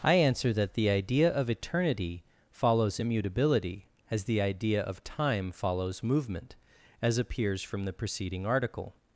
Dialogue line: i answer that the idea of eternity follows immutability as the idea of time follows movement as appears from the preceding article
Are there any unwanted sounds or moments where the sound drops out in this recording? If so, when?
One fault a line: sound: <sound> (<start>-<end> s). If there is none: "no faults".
no faults